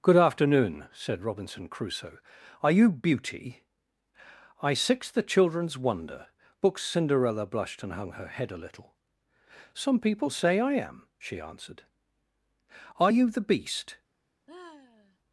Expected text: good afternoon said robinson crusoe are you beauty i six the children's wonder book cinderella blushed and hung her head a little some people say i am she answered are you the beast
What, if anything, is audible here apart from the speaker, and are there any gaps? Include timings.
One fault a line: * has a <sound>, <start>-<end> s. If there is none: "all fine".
* has a sigh, 14.5-15.2 s